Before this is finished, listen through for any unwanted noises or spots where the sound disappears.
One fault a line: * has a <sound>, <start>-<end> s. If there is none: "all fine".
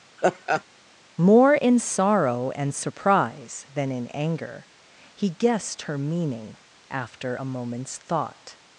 * has a laugh, 0.2-0.6 s